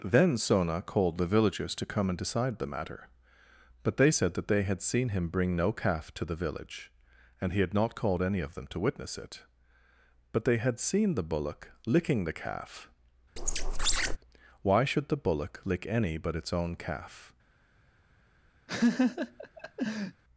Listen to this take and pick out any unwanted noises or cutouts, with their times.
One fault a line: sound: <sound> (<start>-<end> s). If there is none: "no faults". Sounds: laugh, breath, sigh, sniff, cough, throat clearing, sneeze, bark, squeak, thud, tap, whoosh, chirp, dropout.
sound: squeak (13.4-14.2 s)
sound: laugh (18.7-20.2 s)